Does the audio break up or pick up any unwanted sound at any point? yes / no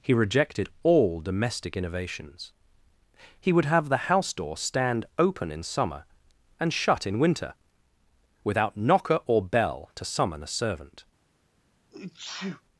yes